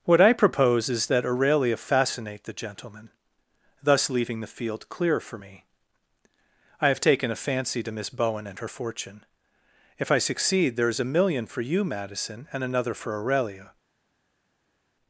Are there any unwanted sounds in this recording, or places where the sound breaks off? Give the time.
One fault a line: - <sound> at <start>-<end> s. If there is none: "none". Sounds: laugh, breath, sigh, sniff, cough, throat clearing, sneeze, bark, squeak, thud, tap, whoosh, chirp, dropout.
none